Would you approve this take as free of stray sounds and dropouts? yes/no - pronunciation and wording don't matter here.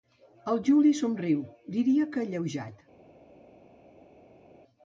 yes